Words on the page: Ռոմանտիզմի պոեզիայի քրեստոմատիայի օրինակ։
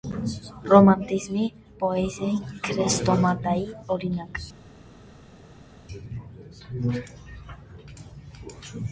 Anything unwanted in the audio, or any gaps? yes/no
no